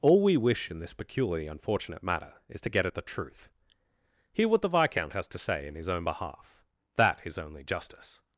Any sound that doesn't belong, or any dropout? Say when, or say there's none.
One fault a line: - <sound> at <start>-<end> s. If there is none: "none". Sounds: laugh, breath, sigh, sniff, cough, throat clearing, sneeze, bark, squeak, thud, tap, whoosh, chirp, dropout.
none